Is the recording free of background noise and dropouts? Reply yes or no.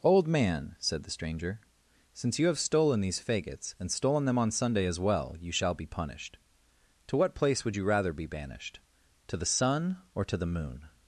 yes